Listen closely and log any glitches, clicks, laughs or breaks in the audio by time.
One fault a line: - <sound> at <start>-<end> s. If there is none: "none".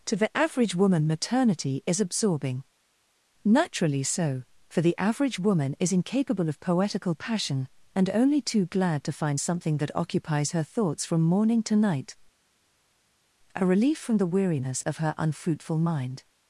none